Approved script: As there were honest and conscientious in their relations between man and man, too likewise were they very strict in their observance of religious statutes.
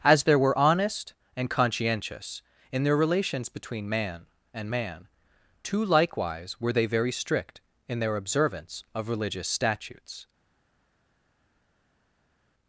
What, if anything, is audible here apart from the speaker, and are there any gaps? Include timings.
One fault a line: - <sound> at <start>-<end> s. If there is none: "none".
none